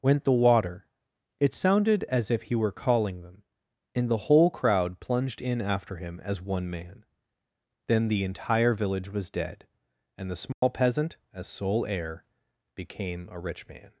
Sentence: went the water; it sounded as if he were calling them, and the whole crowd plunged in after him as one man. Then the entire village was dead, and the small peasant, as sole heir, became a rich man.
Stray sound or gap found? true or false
true